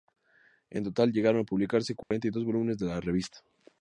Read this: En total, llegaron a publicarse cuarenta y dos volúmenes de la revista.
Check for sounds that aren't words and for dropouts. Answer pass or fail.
fail